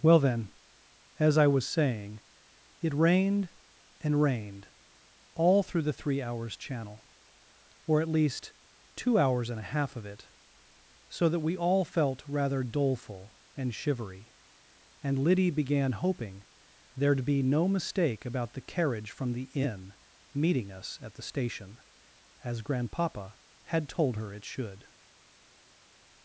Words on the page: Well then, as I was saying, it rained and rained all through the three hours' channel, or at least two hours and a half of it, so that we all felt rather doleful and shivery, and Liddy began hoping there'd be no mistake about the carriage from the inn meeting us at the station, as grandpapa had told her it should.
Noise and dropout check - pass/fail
pass